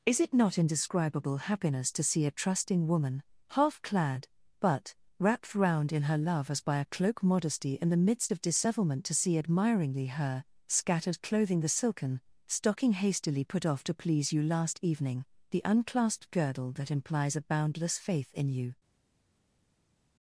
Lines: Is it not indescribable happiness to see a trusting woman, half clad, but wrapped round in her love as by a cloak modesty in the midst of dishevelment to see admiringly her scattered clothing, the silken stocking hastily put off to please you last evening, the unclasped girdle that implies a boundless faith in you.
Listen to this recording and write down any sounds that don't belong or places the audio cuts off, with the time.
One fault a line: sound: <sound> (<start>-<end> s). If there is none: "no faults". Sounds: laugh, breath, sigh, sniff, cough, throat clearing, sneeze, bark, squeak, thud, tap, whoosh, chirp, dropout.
no faults